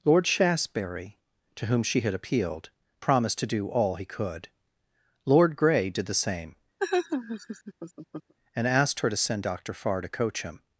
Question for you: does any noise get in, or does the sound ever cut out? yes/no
yes